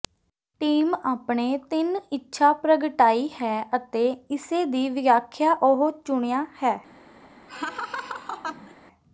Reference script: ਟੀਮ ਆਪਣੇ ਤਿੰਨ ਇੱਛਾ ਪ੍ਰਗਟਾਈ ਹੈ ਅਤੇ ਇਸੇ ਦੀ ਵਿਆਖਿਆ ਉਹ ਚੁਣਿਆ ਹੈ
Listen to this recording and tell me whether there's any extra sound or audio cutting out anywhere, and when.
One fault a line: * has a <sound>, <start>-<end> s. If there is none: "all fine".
* has a laugh, 7.5-8.7 s